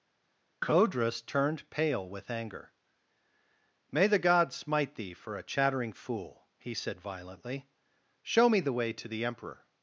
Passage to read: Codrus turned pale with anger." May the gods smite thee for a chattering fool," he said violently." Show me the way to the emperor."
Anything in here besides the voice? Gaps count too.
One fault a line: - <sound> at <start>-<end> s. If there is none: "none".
none